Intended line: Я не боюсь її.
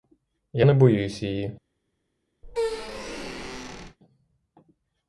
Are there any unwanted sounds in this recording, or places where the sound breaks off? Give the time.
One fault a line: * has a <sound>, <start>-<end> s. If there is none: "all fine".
* has a squeak, 2.4-4.0 s